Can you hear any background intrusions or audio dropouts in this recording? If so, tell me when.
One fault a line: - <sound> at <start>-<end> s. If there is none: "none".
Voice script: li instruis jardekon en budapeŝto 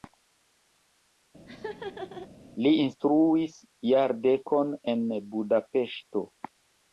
- laugh at 1.5-2.3 s